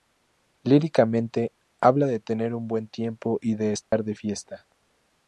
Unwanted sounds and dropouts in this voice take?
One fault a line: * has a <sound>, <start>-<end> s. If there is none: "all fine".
* has a dropout, 3.8-3.9 s